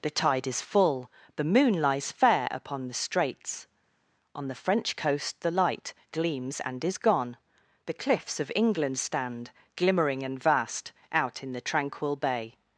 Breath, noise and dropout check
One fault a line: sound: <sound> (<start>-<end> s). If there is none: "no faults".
no faults